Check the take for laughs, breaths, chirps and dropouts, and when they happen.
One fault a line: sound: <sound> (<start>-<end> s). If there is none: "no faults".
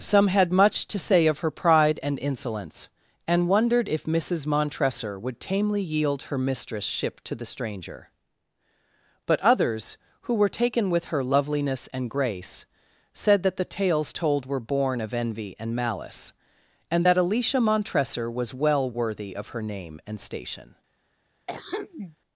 sound: throat clearing (21.5-22.2 s)